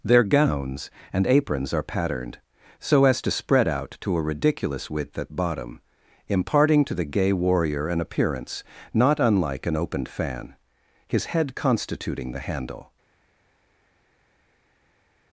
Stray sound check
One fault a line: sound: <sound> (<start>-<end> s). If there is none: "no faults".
no faults